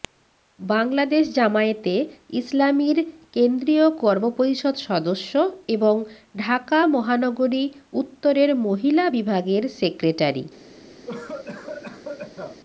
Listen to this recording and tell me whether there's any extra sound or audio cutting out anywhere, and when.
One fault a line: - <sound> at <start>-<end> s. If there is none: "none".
- cough at 11.0-12.6 s